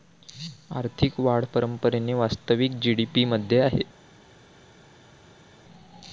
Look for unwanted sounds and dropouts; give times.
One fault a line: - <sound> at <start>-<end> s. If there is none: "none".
none